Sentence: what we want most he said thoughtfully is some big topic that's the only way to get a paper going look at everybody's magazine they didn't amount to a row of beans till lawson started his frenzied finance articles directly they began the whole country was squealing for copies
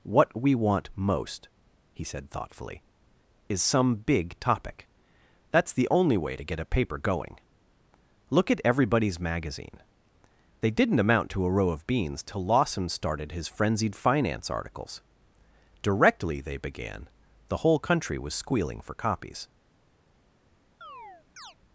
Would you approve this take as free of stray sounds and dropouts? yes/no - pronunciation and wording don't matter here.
no